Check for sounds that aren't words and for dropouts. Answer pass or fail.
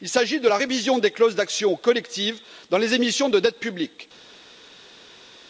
pass